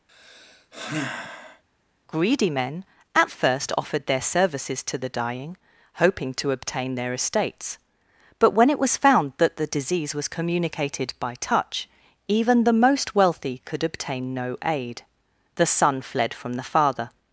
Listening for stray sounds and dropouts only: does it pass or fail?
fail